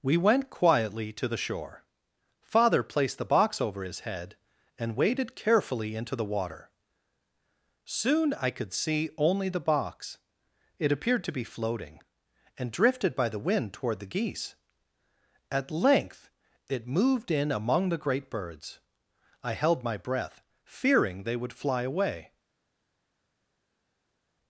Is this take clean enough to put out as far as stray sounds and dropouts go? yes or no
yes